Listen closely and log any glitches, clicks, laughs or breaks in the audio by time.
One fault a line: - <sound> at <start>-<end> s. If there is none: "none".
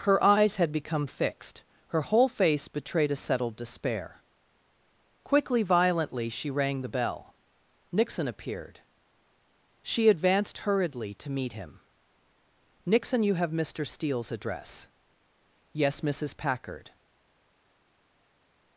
none